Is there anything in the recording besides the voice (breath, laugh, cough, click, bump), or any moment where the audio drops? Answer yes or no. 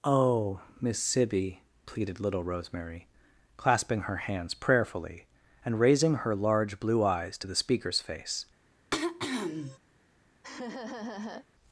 yes